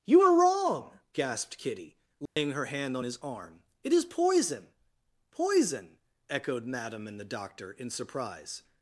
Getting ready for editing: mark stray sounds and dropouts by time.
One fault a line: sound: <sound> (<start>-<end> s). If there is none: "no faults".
sound: dropout (2.3-2.4 s)